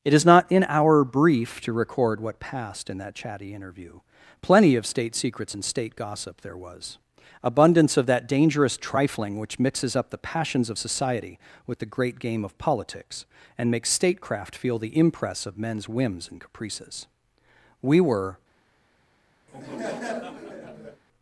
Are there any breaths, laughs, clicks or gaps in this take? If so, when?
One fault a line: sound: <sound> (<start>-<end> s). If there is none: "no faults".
sound: laugh (19.5-21.0 s)